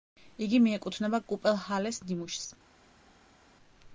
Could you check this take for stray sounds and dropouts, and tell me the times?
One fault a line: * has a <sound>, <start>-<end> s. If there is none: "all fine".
all fine